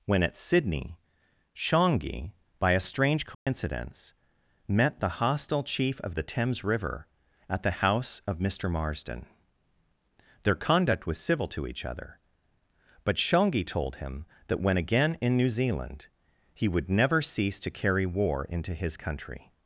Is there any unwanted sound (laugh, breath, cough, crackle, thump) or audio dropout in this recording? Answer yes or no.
yes